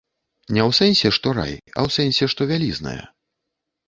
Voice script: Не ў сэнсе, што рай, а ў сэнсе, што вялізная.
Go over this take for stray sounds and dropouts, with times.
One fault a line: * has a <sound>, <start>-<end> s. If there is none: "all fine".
all fine